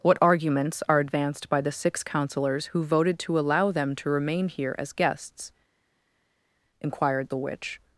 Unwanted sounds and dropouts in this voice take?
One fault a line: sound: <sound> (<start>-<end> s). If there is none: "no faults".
no faults